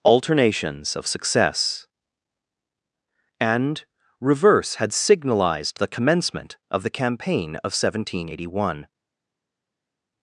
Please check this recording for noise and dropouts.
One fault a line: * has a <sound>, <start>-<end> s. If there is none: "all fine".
all fine